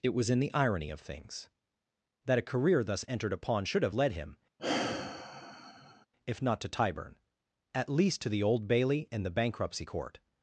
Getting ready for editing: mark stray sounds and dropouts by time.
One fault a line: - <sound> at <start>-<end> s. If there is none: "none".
- sigh at 4.6-6.1 s